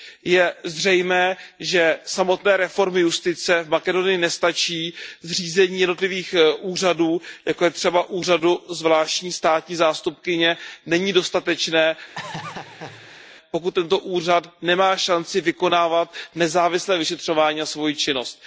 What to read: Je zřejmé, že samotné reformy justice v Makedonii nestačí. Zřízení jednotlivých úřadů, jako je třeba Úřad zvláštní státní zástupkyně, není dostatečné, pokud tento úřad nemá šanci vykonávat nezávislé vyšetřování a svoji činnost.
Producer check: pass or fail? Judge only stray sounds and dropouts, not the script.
fail